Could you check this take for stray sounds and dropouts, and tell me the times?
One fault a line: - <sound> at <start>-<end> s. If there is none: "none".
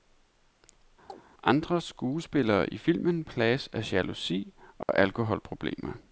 - chirp at 1.1-1.2 s
- dropout at 4.8-4.9 s